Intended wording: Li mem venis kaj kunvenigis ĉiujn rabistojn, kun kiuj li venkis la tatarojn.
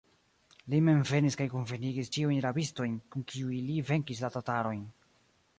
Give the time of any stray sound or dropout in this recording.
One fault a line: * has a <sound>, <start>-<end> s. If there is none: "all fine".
all fine